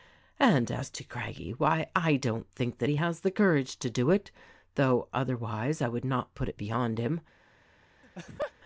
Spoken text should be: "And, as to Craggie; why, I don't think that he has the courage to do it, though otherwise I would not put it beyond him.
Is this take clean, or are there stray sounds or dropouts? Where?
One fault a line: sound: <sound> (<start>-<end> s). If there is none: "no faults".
sound: laugh (8.0-8.5 s)